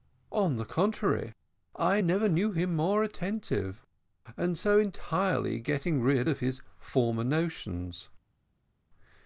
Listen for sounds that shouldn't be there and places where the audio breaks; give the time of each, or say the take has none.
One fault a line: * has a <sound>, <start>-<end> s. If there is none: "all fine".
all fine